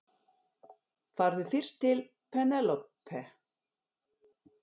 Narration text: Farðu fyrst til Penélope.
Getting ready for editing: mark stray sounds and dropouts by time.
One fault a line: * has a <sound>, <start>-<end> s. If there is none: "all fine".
all fine